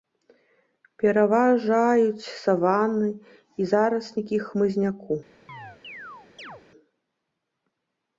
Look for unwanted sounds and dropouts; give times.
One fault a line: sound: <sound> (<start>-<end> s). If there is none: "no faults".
sound: chirp (5.5-6.6 s)